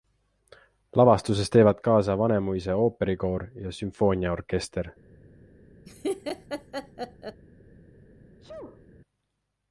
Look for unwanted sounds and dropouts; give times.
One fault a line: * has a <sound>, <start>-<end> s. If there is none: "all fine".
* has a laugh, 5.9-7.4 s
* has a sneeze, 8.4-8.9 s